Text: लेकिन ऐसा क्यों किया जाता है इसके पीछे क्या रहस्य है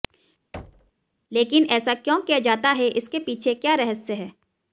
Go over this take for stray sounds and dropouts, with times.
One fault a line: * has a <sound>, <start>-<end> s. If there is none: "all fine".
* has a thud, 0.5-0.9 s